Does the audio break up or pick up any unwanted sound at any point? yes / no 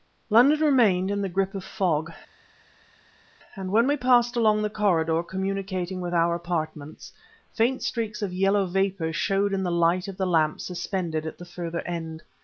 no